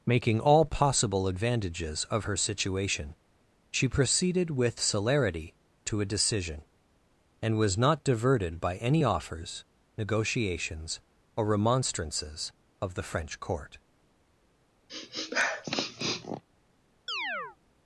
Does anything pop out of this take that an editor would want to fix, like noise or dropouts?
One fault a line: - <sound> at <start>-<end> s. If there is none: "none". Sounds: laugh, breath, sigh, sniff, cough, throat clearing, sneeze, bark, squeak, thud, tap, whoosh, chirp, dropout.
- sniff at 14.9-16.4 s
- chirp at 17.1-17.6 s